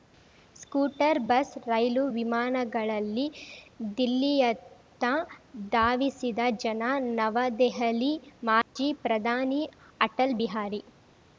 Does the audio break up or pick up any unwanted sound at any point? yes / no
yes